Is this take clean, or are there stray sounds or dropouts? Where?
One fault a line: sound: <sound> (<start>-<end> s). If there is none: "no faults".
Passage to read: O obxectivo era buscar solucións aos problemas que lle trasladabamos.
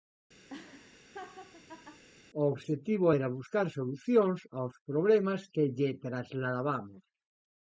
sound: laugh (0.5-2.0 s)